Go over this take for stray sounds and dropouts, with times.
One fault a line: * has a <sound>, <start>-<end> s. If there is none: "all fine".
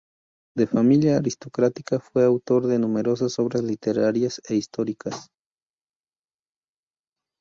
all fine